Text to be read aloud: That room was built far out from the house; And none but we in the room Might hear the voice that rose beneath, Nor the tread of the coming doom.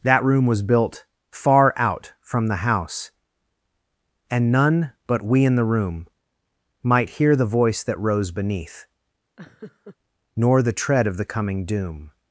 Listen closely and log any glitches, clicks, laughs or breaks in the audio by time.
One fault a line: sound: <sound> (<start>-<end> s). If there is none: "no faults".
sound: laugh (9.4-10.0 s)